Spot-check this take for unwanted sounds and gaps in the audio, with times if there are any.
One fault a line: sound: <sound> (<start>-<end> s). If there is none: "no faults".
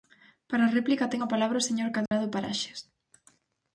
sound: dropout (2.1-2.1 s)